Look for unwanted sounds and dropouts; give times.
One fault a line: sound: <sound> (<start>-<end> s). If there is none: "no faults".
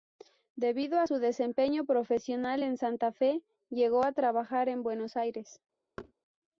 sound: thud (6.0-6.1 s)